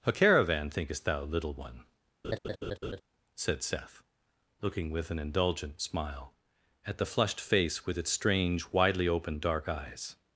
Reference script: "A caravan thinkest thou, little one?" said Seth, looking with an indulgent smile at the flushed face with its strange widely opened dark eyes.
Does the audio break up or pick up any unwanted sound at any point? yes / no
yes